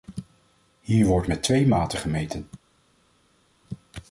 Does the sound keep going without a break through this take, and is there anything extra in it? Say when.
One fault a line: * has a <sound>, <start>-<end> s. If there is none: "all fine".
all fine